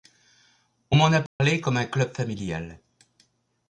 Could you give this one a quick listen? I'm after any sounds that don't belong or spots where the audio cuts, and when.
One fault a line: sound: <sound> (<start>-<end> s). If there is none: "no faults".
sound: dropout (1.3-1.4 s)